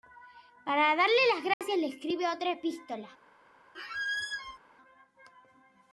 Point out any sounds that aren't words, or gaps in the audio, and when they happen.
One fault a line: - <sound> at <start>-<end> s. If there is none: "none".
- dropout at 1.5-1.6 s
- squeak at 3.7-4.6 s